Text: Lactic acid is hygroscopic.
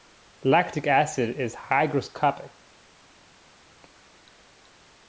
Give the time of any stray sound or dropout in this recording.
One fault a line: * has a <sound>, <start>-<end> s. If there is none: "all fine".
all fine